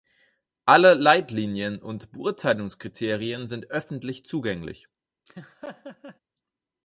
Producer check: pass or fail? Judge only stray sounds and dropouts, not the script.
fail